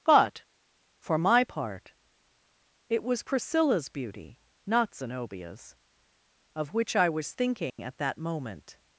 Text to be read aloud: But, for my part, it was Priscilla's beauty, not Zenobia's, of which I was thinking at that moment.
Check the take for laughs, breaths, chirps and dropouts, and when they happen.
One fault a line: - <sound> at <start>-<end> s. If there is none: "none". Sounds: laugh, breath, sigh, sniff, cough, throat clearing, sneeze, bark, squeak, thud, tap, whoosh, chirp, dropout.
- dropout at 7.7-7.8 s